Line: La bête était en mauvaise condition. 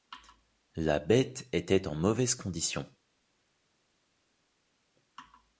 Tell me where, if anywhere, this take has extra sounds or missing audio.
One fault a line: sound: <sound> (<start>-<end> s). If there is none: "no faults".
no faults